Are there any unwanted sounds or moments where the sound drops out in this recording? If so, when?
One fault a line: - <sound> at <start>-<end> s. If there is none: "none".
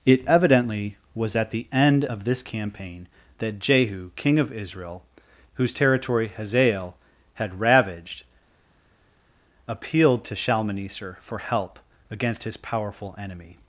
none